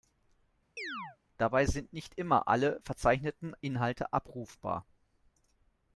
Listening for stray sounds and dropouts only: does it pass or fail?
fail